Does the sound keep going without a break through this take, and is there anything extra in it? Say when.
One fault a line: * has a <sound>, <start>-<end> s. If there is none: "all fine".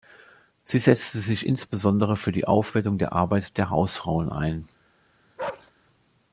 * has a bark, 5.4-5.7 s